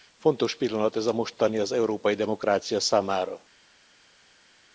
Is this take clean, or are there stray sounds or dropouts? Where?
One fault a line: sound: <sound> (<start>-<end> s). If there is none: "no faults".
no faults